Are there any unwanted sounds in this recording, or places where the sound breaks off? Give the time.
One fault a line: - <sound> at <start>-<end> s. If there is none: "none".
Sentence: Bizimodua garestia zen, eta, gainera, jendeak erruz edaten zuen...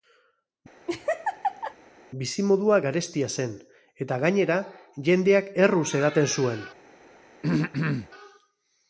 - laugh at 0.9-1.7 s
- throat clearing at 7.4-8.1 s